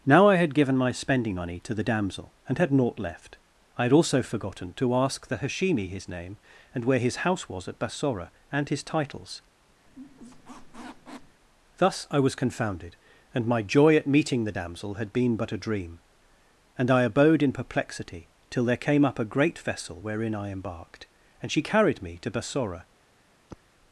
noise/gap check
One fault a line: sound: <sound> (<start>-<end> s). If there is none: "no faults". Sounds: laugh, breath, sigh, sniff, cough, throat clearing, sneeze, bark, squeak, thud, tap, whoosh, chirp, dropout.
sound: squeak (9.9-11.4 s)
sound: sigh (23.5-23.6 s)